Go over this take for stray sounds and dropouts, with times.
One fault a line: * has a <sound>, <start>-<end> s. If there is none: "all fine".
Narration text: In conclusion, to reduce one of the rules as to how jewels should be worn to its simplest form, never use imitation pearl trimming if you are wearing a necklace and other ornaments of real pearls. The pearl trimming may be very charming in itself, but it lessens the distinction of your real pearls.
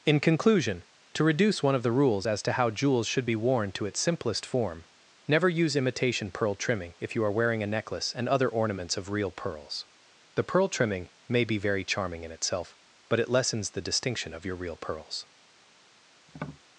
* has a tap, 16.3-16.6 s